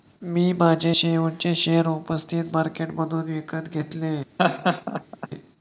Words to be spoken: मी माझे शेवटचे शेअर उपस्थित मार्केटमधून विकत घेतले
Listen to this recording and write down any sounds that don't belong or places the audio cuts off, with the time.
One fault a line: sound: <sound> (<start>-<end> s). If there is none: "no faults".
sound: laugh (4.4-5.3 s)